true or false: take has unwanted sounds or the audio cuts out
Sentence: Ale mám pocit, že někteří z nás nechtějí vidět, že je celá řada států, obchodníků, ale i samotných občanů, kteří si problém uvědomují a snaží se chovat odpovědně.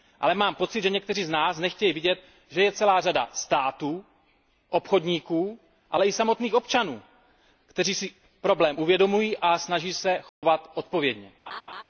true